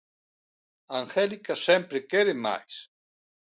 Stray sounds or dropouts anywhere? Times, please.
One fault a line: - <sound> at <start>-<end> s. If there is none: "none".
none